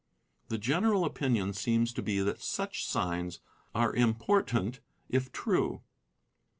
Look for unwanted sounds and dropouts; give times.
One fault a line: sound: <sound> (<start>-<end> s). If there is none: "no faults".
no faults